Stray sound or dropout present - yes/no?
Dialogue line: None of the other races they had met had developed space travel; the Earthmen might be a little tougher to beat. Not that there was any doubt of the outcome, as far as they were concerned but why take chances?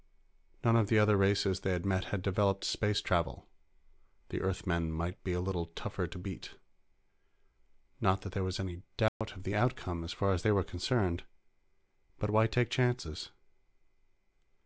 yes